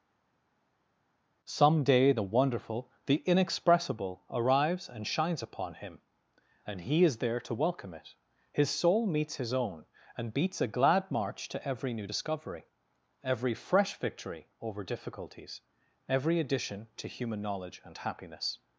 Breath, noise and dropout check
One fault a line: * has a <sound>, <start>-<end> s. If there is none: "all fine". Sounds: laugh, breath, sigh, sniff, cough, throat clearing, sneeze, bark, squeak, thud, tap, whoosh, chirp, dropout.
all fine